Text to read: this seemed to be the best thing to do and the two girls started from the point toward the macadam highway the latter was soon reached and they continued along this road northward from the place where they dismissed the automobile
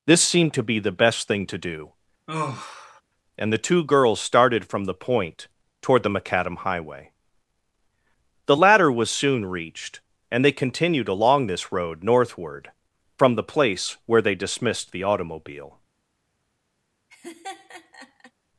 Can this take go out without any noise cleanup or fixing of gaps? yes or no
no